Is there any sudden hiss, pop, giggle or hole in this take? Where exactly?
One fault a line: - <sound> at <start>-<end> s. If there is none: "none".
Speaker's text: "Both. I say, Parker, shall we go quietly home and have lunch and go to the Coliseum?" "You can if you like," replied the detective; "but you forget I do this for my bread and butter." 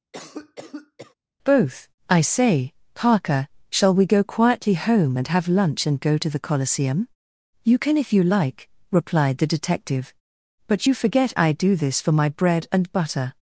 - cough at 0.1-1.1 s